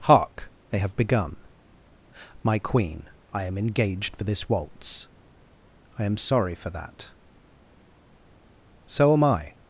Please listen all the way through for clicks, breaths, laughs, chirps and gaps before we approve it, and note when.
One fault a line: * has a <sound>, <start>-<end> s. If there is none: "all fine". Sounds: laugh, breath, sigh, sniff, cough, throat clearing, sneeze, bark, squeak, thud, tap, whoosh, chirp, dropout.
all fine